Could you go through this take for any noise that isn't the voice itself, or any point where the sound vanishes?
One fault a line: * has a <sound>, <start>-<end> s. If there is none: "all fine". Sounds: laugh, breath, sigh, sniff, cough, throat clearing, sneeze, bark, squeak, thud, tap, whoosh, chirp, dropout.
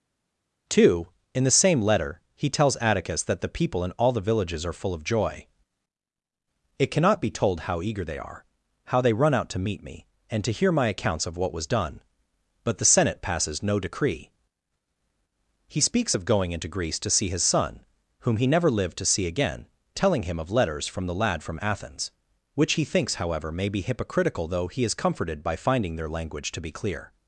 all fine